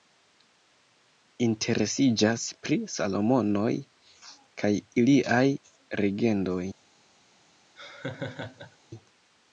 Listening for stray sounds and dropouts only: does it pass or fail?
fail